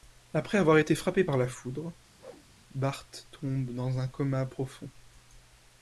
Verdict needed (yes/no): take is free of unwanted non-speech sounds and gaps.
no